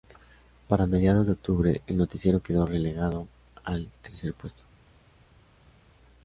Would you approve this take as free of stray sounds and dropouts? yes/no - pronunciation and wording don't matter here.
yes